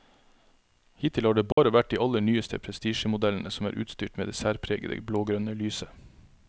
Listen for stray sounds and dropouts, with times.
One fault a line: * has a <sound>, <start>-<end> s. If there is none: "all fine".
* has a dropout, 1.5-1.6 s